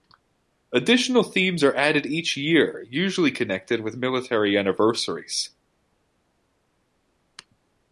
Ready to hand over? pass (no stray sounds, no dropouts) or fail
pass